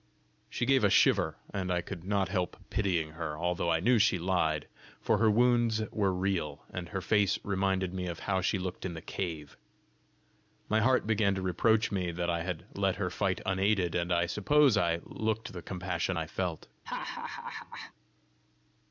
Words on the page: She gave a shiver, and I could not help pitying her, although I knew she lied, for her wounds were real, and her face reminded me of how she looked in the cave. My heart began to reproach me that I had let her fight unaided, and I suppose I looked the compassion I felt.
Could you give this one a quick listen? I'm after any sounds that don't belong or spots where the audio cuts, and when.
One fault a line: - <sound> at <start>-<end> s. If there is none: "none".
- laugh at 16.8-17.9 s